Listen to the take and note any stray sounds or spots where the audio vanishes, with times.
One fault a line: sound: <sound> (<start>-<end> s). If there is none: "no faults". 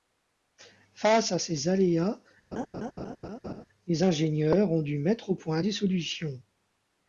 sound: laugh (2.5-3.7 s)